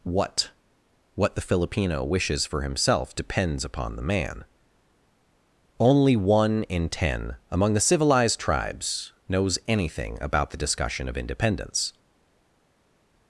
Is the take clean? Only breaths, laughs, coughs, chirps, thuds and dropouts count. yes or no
yes